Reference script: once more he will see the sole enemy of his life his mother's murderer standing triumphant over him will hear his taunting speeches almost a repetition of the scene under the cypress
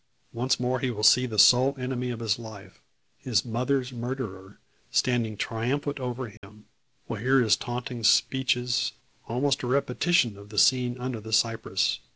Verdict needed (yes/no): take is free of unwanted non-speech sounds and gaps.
no